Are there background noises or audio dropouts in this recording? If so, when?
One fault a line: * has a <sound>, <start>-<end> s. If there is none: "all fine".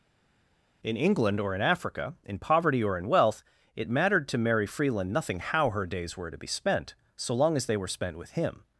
all fine